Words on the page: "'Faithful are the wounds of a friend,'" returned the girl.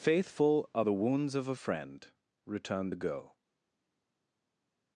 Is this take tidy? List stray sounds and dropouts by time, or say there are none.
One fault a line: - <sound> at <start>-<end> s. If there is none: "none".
none